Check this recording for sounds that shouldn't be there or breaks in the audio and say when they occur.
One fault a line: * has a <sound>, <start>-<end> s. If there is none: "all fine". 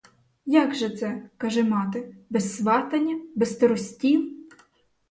all fine